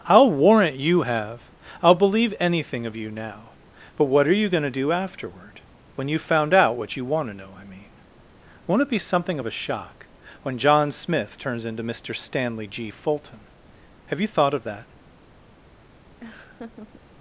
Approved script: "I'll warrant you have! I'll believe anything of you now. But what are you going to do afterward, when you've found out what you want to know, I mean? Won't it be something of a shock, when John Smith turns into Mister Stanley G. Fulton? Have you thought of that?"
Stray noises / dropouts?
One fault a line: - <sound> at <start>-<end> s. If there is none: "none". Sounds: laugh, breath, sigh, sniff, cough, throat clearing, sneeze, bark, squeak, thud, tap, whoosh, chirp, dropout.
- laugh at 16.2-17.0 s